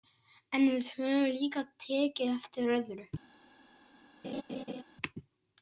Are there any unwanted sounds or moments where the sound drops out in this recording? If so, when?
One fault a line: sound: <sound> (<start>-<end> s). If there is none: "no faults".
sound: laugh (4.2-4.8 s)